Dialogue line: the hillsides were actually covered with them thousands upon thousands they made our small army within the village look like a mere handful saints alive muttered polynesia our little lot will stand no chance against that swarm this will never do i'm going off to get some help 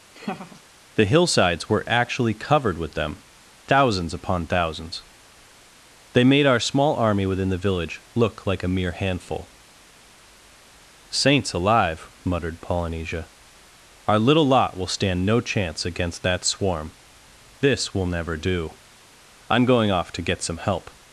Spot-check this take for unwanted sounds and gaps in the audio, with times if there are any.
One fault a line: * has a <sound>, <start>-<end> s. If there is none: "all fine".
* has a laugh, 0.1-0.6 s